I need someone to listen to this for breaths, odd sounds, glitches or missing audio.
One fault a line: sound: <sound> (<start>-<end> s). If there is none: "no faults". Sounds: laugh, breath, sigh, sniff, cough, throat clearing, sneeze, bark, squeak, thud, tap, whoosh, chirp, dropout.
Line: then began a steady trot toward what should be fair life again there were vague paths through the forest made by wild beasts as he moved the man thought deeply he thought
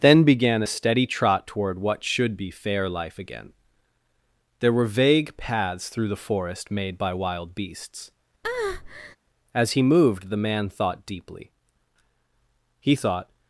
sound: breath (8.4-9.2 s)